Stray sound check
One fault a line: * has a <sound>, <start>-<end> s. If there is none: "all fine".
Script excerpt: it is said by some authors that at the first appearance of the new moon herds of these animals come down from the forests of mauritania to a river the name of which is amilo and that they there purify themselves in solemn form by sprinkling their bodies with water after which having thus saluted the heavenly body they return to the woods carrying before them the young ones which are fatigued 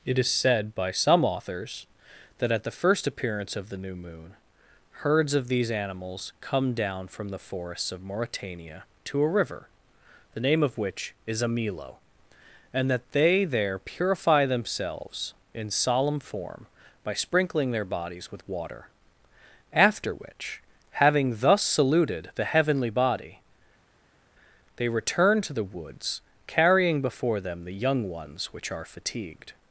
all fine